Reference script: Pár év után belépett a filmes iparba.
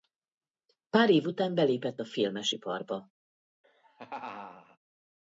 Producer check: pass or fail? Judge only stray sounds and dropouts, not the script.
fail